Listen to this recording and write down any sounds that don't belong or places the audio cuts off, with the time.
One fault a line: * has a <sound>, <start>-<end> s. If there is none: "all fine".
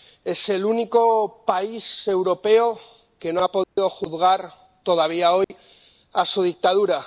* has a dropout, 3.6-3.8 s
* has a dropout, 5.4-5.5 s